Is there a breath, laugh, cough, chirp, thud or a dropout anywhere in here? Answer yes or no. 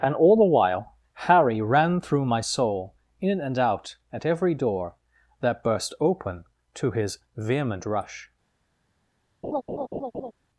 yes